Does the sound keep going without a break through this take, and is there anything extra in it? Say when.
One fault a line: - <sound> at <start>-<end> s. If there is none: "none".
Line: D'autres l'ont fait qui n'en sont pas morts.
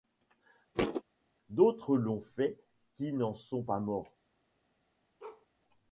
- thud at 0.7-1.0 s
- bark at 5.2-5.5 s